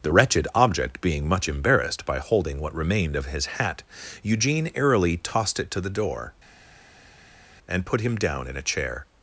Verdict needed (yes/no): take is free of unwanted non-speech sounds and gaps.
yes